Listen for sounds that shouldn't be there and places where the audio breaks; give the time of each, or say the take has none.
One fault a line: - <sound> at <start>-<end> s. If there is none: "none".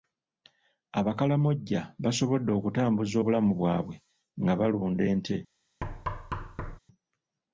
- thud at 5.8-6.8 s